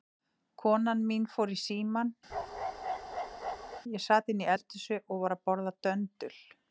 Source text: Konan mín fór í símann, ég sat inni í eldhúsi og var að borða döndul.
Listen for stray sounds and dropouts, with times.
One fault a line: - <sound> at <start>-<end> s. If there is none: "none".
- bark at 2.3-3.8 s